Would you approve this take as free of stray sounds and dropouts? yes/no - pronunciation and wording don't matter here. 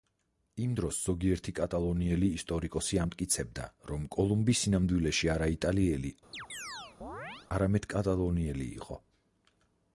no